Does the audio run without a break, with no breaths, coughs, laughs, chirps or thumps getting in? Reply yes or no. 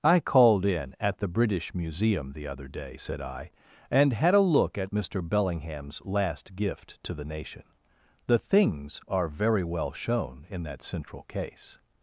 yes